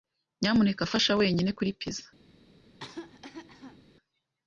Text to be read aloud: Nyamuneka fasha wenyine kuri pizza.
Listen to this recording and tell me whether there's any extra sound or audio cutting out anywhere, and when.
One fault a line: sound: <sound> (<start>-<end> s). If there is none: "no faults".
sound: cough (2.7-3.8 s)